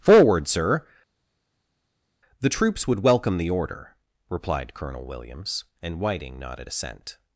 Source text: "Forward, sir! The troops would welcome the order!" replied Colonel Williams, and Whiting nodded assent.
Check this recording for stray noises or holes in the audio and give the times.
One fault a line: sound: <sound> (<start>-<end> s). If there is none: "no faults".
no faults